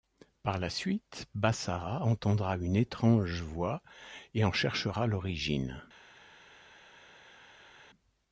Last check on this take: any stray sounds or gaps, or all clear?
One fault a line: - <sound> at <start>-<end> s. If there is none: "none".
none